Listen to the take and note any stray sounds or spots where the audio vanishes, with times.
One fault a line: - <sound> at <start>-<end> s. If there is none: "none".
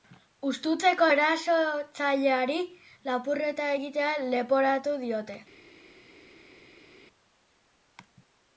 none